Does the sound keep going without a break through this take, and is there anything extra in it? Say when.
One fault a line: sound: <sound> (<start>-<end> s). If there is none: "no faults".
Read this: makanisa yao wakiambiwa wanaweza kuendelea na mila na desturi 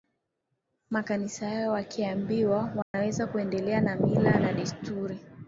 sound: dropout (2.8-2.9 s)